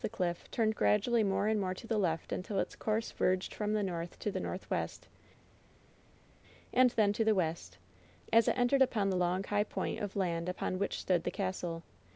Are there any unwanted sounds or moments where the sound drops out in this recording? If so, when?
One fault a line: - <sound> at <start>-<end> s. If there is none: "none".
none